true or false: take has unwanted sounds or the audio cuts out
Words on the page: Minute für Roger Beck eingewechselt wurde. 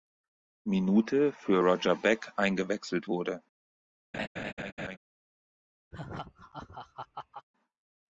true